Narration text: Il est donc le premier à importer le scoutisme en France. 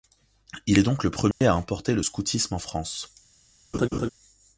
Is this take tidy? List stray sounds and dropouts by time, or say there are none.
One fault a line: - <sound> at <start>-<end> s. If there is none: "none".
- dropout at 1.3-1.4 s
- laugh at 3.7-4.1 s